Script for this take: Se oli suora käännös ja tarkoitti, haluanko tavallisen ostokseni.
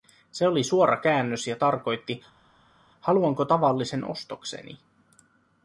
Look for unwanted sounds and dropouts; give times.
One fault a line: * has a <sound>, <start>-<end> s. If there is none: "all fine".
all fine